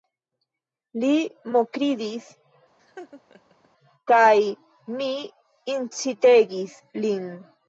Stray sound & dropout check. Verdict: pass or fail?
fail